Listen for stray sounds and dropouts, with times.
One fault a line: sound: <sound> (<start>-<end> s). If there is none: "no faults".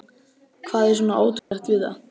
sound: dropout (1.4-1.5 s)